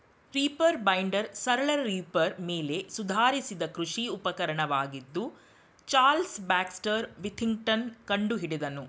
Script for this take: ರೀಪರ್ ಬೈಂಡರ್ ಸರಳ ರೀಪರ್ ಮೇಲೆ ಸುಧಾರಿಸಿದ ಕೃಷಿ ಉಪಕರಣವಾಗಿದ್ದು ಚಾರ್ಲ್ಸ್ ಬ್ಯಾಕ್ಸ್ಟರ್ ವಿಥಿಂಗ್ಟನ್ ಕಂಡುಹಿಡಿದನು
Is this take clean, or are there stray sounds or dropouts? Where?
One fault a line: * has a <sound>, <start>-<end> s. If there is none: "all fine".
all fine